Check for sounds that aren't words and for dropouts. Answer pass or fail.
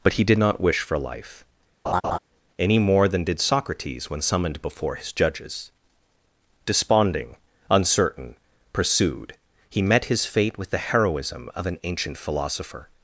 fail